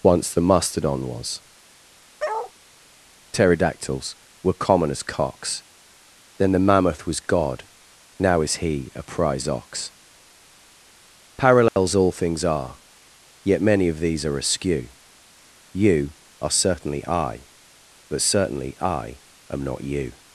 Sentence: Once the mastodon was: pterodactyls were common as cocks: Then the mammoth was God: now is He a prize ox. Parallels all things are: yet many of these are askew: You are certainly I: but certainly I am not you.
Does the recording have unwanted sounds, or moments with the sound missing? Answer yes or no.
yes